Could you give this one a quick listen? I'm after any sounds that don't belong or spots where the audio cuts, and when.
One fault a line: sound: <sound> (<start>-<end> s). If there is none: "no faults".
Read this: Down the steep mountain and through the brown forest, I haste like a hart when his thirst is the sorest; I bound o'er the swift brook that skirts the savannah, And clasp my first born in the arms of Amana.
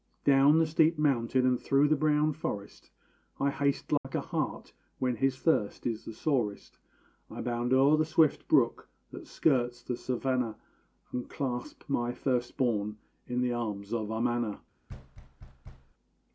sound: dropout (4.0-4.0 s)
sound: thud (14.9-15.9 s)